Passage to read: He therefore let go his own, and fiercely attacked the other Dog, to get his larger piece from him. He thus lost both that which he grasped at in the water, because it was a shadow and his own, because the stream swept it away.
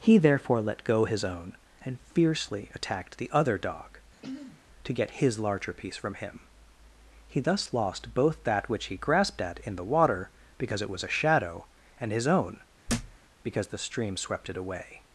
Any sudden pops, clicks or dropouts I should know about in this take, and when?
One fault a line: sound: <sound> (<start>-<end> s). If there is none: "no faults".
sound: throat clearing (4.1-4.6 s)
sound: thud (12.9-13.2 s)